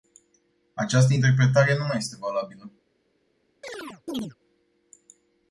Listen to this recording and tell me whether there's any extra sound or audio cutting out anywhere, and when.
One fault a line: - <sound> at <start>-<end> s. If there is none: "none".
- chirp at 3.6-4.3 s